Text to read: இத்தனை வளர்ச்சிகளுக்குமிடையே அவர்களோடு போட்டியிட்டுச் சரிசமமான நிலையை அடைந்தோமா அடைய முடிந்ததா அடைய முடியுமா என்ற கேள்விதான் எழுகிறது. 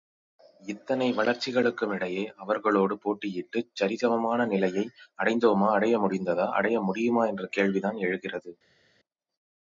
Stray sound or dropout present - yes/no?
no